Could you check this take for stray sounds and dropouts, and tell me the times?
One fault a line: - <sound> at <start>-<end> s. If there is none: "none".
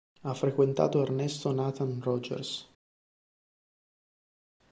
none